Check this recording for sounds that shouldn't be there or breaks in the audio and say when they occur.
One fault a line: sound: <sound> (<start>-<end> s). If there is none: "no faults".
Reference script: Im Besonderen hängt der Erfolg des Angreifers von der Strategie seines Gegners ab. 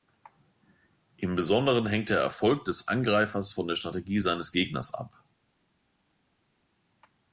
no faults